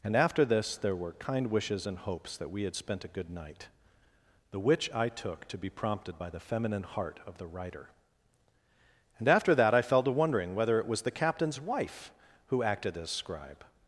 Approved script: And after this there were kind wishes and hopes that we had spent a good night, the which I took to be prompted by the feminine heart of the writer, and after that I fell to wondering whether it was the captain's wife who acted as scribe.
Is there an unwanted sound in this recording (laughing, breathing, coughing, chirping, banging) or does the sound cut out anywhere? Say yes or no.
no